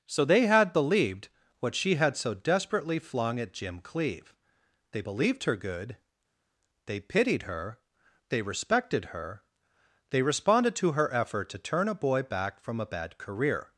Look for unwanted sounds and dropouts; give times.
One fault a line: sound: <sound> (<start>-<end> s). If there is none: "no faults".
no faults